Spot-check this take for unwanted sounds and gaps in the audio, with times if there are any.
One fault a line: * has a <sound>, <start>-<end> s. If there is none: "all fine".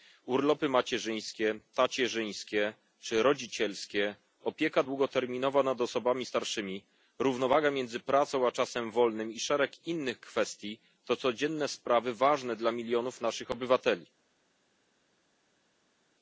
all fine